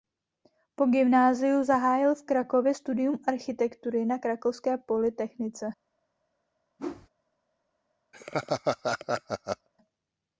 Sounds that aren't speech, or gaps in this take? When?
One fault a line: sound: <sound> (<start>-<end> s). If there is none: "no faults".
sound: whoosh (6.8-7.1 s)
sound: laugh (8.1-9.7 s)